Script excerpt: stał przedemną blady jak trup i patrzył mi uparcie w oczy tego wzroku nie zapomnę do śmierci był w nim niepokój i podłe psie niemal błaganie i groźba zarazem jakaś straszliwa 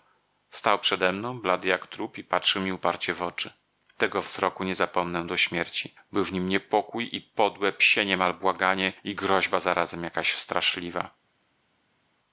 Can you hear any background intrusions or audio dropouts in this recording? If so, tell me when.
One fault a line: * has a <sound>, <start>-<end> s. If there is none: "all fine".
all fine